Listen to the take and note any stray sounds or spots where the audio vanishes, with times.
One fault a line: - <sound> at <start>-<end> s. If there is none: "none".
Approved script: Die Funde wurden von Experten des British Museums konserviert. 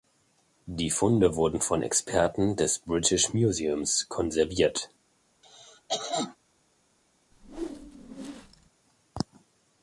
- cough at 5.4-6.4 s
- whoosh at 7.3-8.7 s